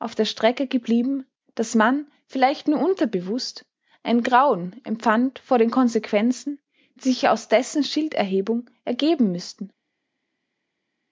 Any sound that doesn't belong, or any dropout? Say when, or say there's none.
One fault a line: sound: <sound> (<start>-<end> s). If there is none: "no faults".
no faults